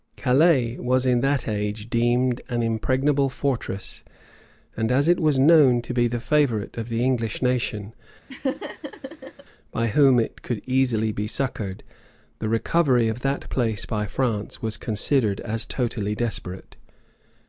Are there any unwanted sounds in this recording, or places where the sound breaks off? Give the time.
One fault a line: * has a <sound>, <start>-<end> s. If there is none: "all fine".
* has a laugh, 8.3-9.4 s